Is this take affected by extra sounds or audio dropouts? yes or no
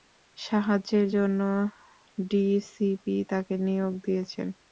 no